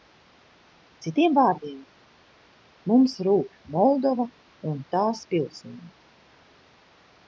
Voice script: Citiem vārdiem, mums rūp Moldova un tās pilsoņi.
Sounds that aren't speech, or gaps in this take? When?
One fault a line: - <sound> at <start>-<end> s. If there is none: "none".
none